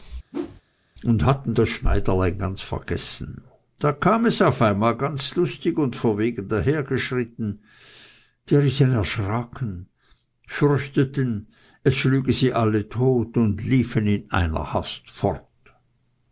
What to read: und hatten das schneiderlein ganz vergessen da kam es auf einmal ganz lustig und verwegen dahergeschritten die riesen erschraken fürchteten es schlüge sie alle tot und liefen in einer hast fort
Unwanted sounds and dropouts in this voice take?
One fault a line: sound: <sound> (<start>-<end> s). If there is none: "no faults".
sound: whoosh (0.3-0.6 s)